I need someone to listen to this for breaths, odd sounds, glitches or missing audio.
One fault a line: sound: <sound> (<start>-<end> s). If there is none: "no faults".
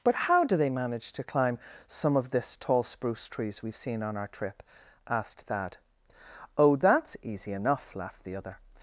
no faults